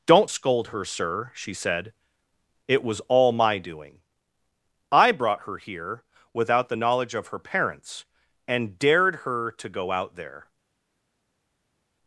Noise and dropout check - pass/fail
pass